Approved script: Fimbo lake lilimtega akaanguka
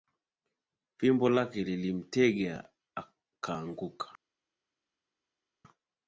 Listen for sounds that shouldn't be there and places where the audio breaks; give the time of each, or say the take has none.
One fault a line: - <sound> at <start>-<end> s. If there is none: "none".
none